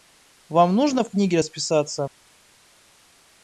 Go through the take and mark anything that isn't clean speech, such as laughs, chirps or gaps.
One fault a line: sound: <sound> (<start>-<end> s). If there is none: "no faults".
no faults